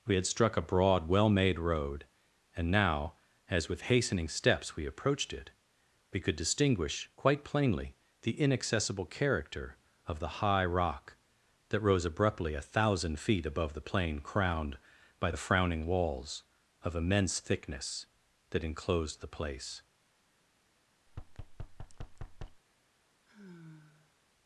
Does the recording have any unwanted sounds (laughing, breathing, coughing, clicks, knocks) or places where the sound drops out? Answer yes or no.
yes